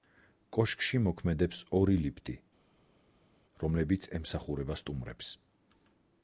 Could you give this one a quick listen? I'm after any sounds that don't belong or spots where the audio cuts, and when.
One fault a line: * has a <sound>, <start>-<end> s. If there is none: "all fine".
all fine